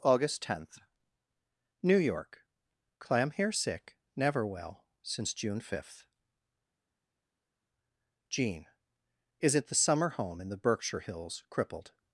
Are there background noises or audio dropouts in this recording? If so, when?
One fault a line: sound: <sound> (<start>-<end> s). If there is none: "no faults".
no faults